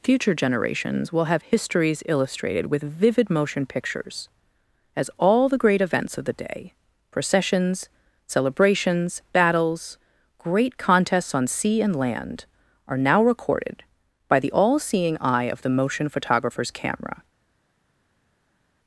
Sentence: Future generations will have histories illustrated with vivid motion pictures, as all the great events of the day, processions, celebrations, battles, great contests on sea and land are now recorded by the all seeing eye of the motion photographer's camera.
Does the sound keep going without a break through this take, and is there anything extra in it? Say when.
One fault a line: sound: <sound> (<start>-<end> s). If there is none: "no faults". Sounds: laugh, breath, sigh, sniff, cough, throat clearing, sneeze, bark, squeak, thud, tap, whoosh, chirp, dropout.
no faults